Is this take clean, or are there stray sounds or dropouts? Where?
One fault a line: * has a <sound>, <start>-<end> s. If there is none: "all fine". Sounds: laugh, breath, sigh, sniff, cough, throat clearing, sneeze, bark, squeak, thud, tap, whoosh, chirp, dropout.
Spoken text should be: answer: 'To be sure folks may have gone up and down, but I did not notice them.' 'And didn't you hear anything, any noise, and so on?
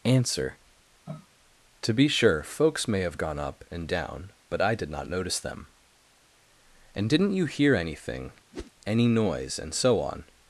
* has a sniff, 1.1-1.3 s
* has a whoosh, 8.5-8.7 s